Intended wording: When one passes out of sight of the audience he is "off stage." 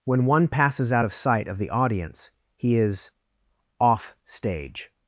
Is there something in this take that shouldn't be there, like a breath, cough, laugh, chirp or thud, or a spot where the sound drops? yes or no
no